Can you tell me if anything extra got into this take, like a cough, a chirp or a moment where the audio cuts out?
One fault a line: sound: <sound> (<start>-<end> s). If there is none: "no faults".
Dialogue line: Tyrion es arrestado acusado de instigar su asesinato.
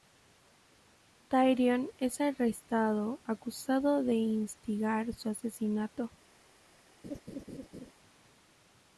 sound: laugh (7.0-7.9 s)